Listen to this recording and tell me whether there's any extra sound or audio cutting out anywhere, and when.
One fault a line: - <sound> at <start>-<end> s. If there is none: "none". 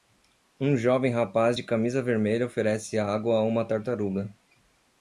none